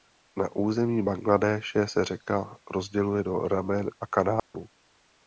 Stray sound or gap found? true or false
true